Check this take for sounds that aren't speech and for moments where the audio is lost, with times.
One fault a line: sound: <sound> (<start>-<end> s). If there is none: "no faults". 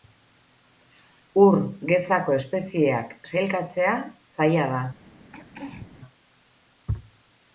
sound: throat clearing (5.3-6.0 s)